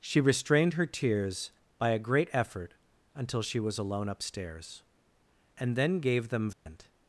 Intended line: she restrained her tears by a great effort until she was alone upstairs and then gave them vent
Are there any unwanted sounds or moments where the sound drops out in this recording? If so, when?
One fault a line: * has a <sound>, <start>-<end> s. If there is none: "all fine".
* has a dropout, 6.5-6.7 s